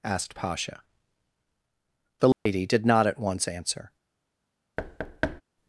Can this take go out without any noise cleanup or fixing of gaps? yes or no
no